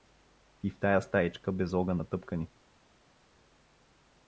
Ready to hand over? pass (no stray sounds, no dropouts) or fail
pass